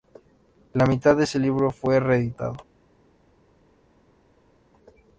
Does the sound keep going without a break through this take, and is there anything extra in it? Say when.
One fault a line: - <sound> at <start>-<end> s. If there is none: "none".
none